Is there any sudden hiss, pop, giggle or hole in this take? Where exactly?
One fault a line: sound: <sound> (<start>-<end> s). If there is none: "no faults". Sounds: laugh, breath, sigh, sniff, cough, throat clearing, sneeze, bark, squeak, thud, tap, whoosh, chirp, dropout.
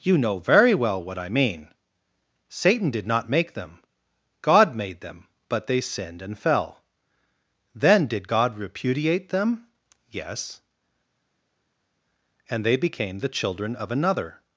no faults